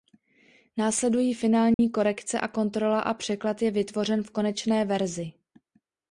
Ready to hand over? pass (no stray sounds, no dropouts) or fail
fail